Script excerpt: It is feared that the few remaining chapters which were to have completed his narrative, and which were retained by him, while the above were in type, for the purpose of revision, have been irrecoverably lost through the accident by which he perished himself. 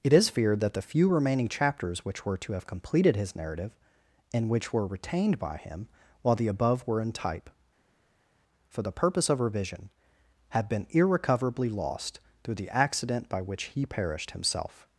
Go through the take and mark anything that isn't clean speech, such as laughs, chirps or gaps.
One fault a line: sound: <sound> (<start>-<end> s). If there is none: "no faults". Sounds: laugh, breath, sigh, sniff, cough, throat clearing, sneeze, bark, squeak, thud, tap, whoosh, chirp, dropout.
no faults